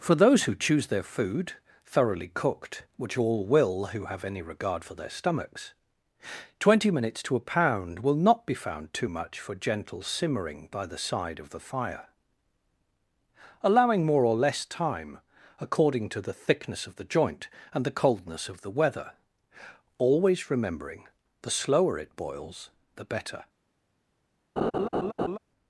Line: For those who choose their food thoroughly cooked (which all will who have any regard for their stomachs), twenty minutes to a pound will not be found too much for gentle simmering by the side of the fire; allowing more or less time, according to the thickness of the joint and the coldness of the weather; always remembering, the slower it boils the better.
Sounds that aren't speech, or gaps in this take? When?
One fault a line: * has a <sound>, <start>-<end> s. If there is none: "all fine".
* has a laugh, 24.6-25.4 s